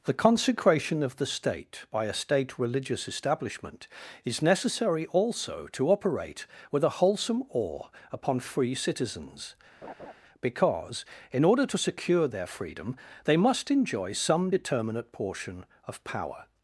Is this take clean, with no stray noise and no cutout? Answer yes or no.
no